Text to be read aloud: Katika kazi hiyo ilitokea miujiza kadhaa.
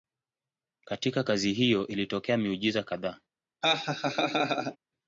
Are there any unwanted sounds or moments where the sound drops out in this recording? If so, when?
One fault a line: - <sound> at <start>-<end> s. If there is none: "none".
- laugh at 3.6-4.8 s